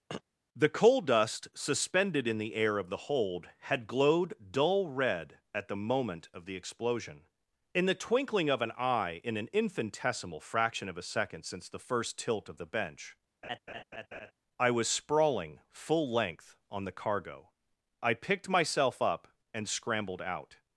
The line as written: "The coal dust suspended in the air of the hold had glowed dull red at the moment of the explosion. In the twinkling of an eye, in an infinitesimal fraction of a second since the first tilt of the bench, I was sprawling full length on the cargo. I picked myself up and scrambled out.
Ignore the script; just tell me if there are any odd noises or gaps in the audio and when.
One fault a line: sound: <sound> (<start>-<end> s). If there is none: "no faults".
sound: throat clearing (0.1-0.2 s)
sound: laugh (13.4-14.3 s)